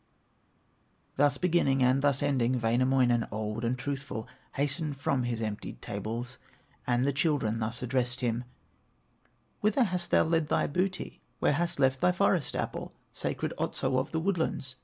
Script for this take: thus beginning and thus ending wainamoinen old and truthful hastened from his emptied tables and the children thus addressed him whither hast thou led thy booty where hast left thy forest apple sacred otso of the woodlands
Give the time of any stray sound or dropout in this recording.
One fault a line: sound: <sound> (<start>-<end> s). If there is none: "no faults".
no faults